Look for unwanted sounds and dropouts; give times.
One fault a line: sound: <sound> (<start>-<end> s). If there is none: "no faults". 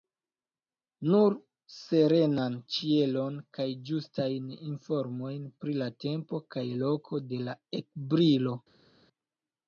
no faults